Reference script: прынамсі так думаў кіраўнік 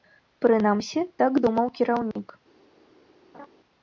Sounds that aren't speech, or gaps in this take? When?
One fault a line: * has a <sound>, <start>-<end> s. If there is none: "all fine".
* has a dropout, 2.1-2.2 s
* has a laugh, 3.3-3.5 s